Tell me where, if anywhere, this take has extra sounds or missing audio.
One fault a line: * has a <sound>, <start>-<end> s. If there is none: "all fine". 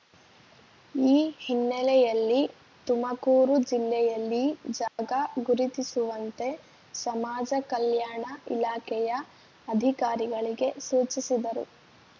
* has a dropout, 4.9-5.0 s